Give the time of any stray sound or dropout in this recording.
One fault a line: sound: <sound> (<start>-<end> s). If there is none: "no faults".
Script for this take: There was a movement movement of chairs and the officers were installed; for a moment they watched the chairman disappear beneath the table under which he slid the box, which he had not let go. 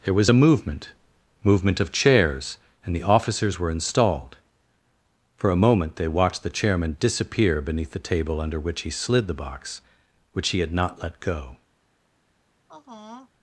sound: sigh (12.7-13.3 s)